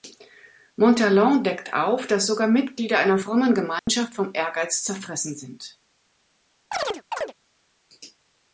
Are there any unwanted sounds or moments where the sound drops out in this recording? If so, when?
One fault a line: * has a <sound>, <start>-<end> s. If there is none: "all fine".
* has a dropout, 3.8-3.9 s
* has a chirp, 6.7-7.3 s